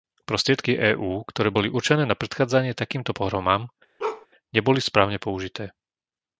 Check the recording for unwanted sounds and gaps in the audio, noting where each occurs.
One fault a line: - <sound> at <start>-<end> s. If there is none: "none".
- bark at 4.0-4.3 s